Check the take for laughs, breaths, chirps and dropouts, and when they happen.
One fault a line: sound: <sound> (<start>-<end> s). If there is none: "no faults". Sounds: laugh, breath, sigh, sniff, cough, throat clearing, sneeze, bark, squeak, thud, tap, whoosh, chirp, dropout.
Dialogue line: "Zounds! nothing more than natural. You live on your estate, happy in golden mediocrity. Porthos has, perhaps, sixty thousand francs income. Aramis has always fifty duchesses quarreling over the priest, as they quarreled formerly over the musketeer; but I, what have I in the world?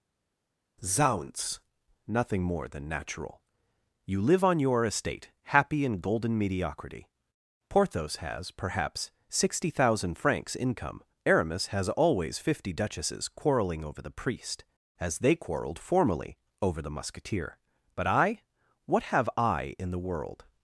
no faults